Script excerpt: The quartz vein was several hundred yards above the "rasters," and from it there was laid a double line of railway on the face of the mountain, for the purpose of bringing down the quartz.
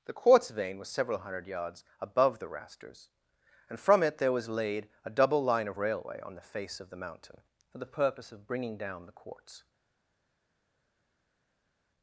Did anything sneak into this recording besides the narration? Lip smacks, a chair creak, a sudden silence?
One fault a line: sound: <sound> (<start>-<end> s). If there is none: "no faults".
no faults